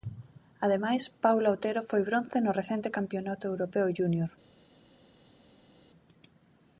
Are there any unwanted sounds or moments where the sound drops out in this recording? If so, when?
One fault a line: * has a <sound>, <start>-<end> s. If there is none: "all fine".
all fine